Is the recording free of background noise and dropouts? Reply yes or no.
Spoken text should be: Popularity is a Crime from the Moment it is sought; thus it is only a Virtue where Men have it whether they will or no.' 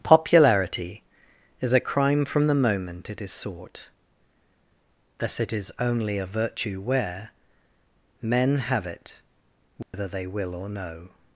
no